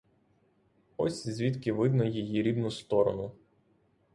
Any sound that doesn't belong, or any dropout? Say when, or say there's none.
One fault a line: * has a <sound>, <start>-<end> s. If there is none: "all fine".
all fine